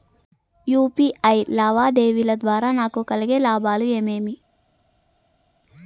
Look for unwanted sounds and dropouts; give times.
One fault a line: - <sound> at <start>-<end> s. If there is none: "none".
none